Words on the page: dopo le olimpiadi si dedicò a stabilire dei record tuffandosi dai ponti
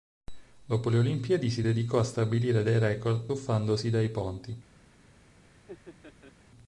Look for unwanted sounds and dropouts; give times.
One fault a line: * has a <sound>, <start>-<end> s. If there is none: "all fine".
* has a laugh, 5.5-6.3 s